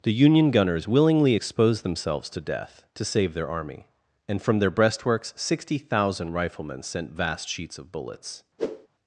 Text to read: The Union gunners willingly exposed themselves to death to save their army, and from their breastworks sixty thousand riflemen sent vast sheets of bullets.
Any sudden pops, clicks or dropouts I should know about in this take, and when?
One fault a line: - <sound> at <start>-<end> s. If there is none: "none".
- whoosh at 8.6-8.9 s